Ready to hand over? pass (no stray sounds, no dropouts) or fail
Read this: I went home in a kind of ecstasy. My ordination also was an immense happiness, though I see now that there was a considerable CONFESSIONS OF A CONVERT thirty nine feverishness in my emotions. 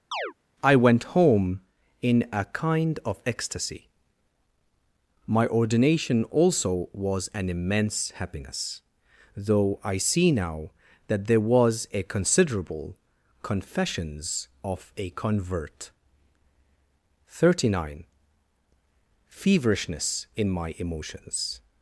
fail